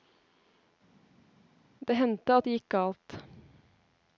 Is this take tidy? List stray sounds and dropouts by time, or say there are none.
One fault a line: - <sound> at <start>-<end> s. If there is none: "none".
none